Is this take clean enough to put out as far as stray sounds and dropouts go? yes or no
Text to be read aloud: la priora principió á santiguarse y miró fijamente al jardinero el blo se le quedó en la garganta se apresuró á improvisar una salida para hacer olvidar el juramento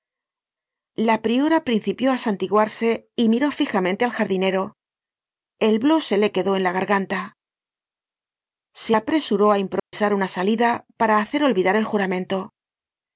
no